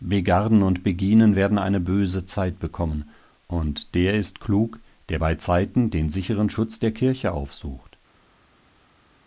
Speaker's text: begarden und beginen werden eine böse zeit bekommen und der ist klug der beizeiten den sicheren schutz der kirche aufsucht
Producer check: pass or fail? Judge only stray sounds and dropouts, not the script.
pass